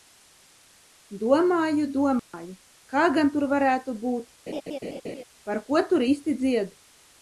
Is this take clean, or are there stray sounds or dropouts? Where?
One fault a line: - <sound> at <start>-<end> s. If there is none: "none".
- dropout at 2.2-2.3 s
- laugh at 4.5-5.2 s